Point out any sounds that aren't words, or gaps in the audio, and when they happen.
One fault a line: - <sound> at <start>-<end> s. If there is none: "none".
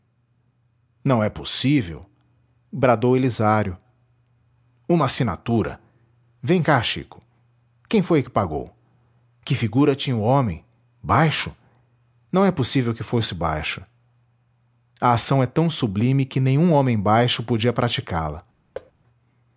- thud at 18.7-18.9 s